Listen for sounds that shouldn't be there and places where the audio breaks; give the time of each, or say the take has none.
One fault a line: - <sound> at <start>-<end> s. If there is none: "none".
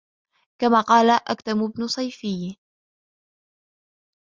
none